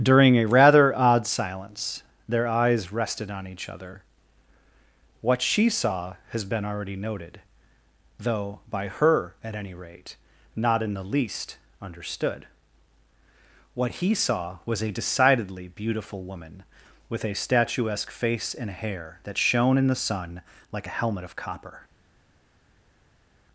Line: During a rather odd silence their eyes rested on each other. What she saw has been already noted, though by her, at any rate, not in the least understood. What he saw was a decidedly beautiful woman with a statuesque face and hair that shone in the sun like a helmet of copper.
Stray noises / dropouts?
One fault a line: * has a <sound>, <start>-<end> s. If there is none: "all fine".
all fine